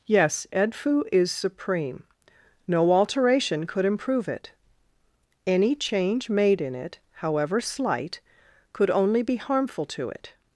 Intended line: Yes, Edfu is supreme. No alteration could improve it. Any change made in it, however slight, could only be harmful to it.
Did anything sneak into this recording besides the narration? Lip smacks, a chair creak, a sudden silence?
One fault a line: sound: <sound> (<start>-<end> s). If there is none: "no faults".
no faults